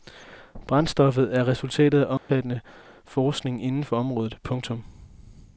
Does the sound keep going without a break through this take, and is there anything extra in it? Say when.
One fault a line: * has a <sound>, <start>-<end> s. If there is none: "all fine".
* has a dropout, 2.2-2.3 s